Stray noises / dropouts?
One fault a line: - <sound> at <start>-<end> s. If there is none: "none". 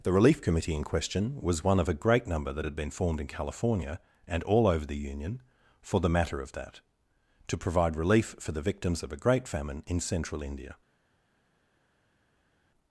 none